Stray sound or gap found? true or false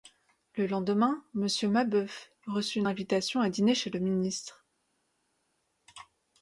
false